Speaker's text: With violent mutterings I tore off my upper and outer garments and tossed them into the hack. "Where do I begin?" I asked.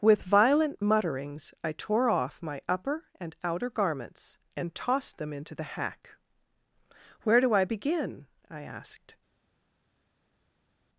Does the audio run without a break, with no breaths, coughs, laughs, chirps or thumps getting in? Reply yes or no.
yes